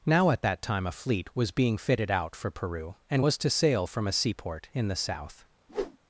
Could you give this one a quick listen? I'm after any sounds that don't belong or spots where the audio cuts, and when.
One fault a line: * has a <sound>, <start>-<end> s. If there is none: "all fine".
* has a whoosh, 5.7-6.0 s